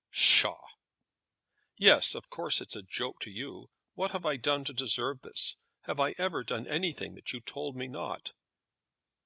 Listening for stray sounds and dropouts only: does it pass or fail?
pass